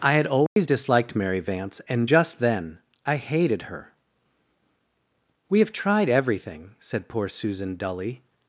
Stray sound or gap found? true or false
true